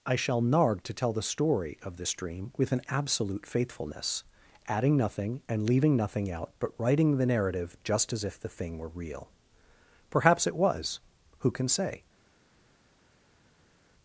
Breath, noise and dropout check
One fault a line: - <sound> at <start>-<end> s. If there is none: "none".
none